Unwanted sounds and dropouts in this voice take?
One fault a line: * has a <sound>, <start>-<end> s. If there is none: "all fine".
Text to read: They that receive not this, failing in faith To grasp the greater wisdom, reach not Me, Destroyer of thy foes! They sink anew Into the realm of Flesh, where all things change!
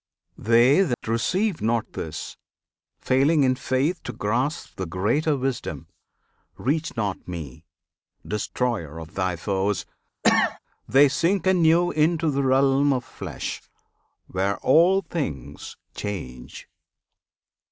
* has a dropout, 0.9-1.0 s
* has a cough, 10.2-10.6 s